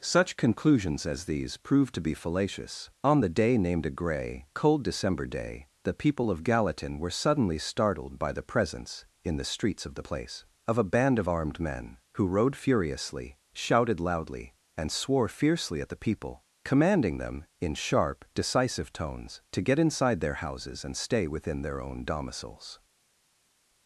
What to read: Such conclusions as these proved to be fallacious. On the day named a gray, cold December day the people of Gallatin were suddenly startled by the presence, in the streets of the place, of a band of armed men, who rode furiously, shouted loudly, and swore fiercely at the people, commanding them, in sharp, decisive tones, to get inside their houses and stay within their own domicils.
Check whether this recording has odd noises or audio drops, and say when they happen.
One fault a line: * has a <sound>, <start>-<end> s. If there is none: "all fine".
all fine